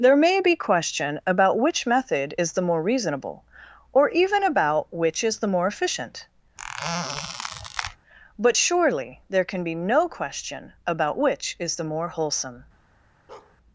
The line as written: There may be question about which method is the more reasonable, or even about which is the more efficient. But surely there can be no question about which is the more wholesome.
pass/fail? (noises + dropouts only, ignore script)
fail